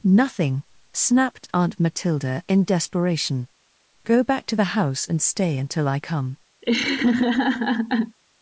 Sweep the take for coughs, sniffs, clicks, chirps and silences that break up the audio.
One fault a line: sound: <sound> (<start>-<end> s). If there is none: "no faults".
sound: laugh (6.6-8.2 s)